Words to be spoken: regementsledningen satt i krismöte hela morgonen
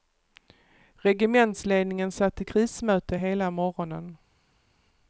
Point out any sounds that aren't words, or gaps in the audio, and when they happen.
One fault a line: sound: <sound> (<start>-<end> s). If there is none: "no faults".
no faults